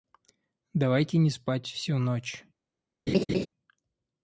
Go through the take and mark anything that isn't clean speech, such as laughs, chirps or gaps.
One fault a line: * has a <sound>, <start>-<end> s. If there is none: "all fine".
* has a laugh, 3.1-3.5 s